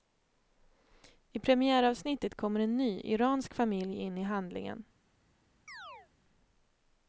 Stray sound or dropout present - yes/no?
yes